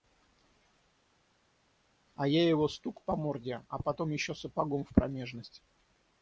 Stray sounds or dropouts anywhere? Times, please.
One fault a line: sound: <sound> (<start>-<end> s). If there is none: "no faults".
no faults